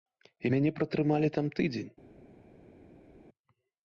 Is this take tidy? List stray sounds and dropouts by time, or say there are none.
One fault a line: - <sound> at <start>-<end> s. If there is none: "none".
none